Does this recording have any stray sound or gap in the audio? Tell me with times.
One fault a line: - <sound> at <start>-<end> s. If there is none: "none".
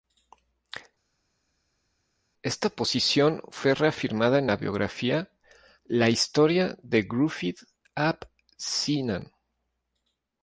none